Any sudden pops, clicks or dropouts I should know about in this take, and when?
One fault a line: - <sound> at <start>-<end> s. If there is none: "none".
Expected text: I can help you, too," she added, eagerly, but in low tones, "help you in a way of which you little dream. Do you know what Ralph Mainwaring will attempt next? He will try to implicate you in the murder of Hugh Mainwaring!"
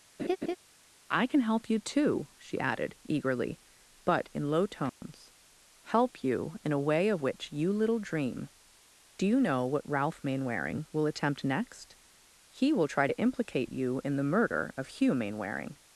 - laugh at 0.2-0.6 s
- dropout at 4.9-5.0 s